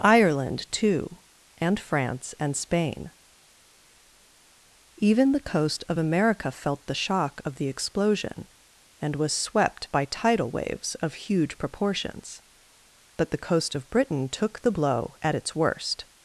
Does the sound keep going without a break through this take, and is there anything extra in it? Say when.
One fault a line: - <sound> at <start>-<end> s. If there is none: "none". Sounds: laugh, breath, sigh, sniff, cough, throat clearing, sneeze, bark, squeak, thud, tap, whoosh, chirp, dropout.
none